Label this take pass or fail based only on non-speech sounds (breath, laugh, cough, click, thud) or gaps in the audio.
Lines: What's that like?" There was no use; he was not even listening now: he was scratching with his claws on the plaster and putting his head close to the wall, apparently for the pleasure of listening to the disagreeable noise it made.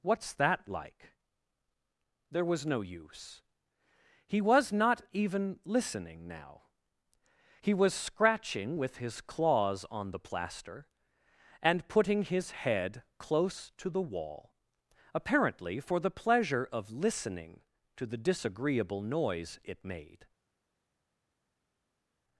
pass